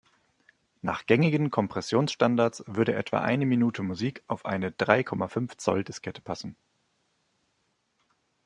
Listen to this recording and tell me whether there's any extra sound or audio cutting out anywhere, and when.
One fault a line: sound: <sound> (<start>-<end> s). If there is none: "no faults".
no faults